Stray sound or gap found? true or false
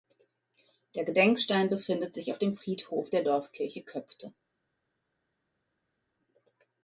false